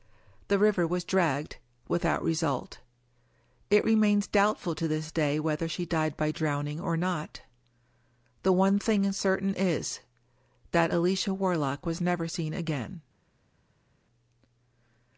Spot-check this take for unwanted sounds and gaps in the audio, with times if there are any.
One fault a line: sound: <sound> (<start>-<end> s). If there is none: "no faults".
no faults